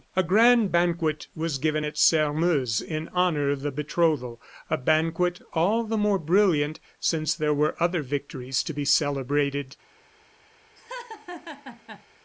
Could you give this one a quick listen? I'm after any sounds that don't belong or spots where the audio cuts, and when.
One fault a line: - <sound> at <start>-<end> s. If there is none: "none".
- laugh at 10.8-12.1 s